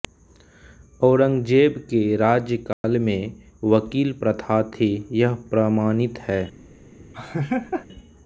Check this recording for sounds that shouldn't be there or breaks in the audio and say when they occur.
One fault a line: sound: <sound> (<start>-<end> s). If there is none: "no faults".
sound: dropout (2.7-2.8 s)
sound: laugh (7.1-7.9 s)